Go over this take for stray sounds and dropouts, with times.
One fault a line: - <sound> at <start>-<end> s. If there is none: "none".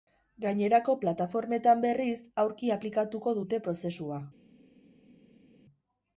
none